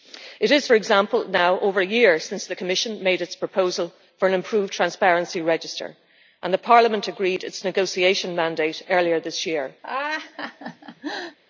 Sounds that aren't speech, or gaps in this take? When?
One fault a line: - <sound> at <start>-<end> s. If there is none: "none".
- laugh at 9.8-11.4 s